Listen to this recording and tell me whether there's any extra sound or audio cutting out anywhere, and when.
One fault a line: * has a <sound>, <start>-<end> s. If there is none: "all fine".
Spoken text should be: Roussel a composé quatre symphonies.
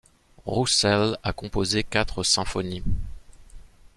all fine